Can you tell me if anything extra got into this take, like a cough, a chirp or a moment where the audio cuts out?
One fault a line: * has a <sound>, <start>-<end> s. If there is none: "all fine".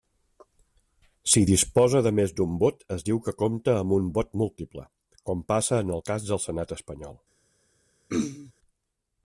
* has a throat clearing, 8.1-8.5 s